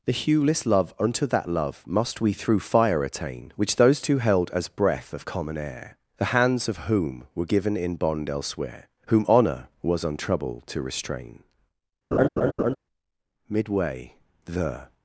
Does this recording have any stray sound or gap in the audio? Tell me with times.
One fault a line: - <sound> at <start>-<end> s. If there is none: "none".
- laugh at 12.1-12.8 s